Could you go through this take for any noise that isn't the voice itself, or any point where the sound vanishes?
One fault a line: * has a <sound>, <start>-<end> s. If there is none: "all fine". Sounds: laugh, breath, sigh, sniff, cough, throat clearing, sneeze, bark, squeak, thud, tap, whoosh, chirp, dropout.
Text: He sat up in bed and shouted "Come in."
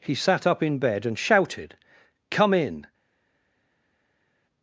all fine